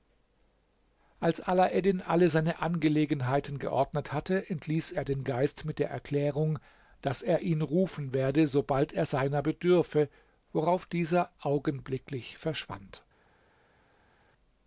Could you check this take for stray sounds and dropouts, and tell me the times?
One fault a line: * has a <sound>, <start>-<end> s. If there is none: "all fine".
all fine